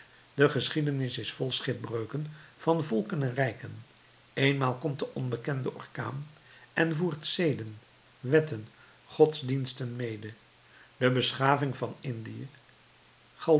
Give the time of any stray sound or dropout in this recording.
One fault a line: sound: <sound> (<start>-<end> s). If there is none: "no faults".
no faults